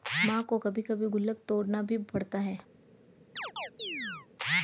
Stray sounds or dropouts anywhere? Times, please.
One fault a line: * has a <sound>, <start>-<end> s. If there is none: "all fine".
* has a chirp, 3.4-4.3 s